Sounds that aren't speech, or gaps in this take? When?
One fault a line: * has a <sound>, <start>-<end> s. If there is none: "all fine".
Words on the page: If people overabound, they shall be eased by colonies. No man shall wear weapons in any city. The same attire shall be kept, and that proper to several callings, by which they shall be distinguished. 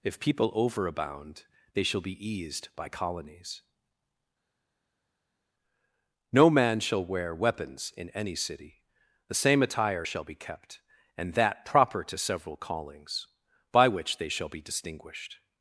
all fine